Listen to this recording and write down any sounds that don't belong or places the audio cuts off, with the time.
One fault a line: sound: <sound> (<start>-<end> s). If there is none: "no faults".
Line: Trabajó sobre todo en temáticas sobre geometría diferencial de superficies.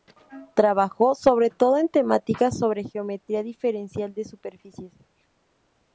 no faults